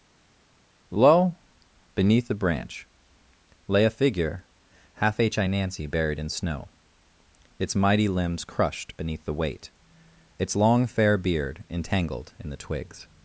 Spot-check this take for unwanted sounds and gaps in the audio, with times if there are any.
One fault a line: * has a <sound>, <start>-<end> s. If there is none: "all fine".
all fine